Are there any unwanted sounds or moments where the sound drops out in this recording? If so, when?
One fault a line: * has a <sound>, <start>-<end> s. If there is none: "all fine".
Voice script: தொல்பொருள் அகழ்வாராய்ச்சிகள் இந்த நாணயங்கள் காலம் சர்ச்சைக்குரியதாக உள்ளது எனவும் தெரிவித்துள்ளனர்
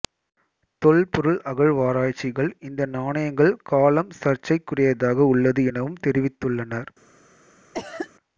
* has a cough, 7.7-8.1 s